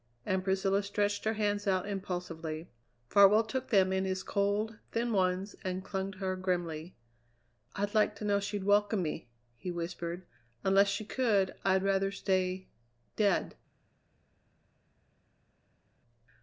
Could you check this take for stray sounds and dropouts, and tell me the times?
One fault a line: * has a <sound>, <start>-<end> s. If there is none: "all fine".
all fine